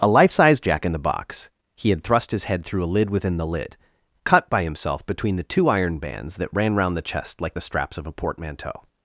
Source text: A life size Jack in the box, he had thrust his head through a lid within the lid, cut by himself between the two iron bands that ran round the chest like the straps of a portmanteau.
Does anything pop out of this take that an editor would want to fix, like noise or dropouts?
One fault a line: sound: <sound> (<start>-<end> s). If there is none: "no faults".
no faults